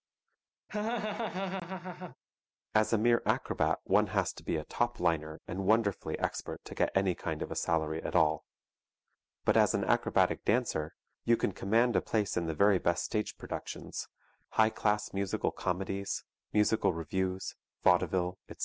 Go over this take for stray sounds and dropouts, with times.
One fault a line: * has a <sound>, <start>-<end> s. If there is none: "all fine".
* has a laugh, 0.7-2.2 s